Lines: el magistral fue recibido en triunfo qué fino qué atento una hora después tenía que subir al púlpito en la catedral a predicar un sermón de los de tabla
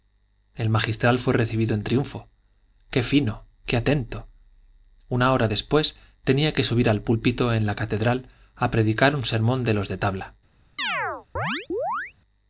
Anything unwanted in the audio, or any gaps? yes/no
yes